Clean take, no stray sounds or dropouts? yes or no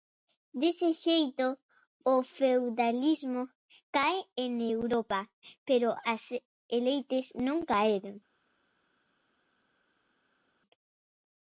yes